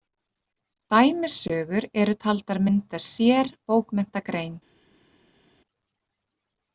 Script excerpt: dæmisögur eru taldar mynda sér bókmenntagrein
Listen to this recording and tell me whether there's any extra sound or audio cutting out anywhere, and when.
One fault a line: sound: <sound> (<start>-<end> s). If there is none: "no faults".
no faults